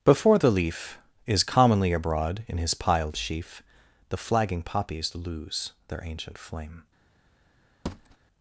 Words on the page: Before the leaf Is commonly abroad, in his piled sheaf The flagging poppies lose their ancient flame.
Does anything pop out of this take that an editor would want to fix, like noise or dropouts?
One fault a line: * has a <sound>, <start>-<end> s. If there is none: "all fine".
* has a thud, 7.9-8.2 s